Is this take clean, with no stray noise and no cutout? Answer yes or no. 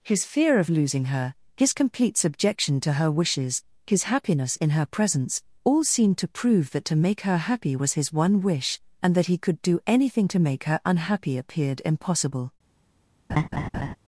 no